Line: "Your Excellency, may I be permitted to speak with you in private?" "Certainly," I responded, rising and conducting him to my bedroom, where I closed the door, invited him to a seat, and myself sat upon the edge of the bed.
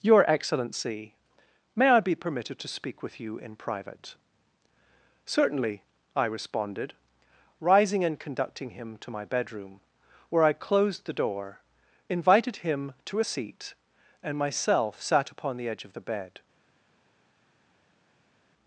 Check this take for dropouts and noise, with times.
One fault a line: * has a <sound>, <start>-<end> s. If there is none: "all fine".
all fine